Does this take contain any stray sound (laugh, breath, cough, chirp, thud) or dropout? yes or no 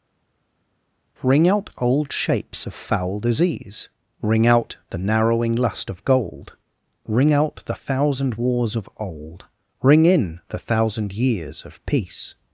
no